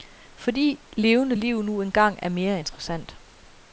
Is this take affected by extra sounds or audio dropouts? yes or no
no